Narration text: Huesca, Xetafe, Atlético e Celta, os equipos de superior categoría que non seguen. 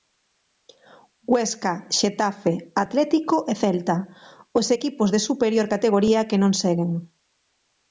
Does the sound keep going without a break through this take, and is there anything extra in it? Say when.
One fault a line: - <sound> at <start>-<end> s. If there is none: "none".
none